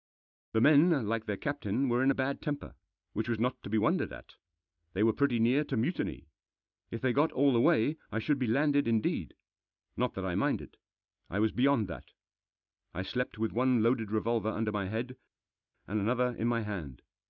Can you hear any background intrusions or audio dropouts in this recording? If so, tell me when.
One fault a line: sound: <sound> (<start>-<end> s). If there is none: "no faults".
no faults